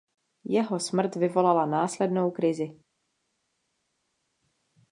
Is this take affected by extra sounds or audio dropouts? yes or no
no